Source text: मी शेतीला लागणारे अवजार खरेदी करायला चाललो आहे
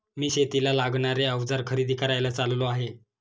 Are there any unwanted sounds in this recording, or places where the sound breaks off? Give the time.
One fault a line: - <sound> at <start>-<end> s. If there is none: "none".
none